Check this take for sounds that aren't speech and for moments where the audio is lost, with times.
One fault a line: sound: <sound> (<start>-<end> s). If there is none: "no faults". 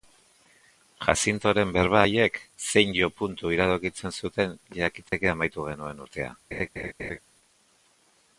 sound: dropout (5.1-5.1 s)
sound: laugh (6.5-7.2 s)